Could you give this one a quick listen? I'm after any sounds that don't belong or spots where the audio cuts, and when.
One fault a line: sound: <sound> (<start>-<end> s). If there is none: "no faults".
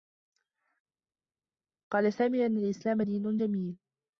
no faults